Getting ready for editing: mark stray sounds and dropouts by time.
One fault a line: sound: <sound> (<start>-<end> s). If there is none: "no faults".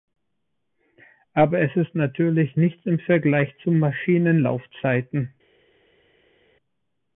no faults